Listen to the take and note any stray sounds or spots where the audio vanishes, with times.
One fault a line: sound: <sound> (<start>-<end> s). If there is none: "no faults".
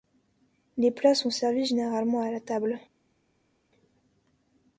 no faults